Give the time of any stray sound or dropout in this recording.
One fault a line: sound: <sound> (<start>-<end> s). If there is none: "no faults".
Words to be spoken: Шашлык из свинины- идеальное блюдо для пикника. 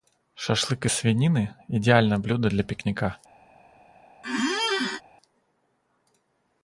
sound: squeak (4.2-5.0 s)